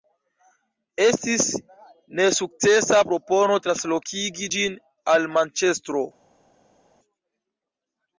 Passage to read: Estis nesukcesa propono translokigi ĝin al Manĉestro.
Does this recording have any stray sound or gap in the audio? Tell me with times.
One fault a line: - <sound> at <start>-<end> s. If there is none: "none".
none